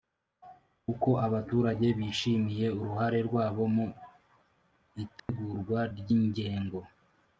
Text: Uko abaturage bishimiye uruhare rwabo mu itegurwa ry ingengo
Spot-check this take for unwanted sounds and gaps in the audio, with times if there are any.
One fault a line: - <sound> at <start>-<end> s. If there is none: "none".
- dropout at 5.2-5.3 s